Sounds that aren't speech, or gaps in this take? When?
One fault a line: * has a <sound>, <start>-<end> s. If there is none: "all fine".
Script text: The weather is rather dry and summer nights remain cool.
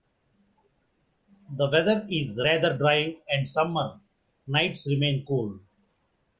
all fine